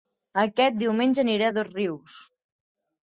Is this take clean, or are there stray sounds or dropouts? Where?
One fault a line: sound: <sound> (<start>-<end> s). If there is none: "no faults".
no faults